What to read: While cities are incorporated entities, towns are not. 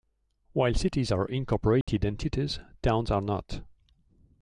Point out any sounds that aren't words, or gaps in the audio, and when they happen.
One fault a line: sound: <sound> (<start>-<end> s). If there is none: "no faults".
sound: dropout (1.8-1.9 s)